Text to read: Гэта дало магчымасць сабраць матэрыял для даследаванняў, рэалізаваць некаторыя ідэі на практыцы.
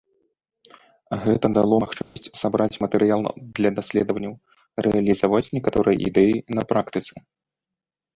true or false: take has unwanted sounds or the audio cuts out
true